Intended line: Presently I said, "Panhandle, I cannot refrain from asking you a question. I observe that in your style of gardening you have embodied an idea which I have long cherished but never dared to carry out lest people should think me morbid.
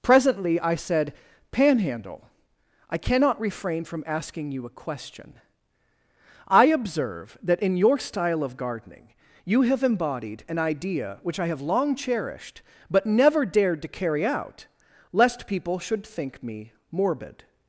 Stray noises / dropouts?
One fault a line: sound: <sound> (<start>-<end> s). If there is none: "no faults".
no faults